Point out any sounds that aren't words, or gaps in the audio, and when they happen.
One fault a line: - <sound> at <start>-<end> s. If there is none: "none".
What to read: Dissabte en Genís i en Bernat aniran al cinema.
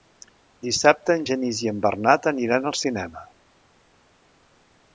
none